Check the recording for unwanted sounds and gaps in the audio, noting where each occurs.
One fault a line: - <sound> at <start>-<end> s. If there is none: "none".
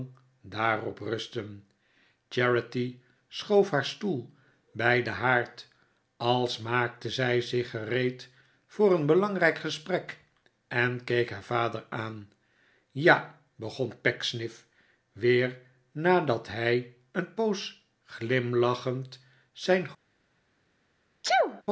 - sneeze at 21.2-21.6 s